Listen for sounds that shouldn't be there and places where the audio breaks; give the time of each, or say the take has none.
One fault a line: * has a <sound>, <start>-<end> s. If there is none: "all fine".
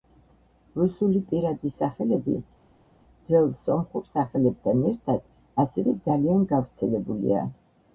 all fine